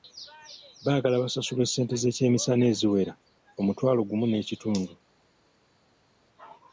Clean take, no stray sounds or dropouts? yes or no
yes